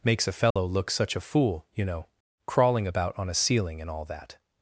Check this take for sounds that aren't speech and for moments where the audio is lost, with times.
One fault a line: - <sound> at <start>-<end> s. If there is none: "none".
- dropout at 0.5-0.6 s